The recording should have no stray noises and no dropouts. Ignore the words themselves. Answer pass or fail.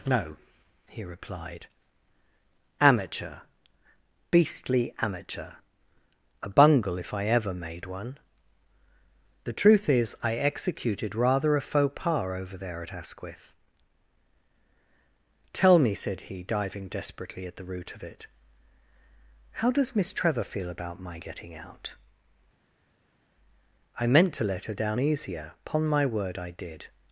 pass